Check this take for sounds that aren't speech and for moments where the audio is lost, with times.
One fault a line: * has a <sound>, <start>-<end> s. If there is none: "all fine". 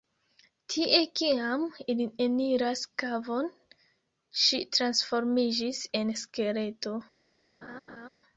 * has a laugh, 7.6-8.1 s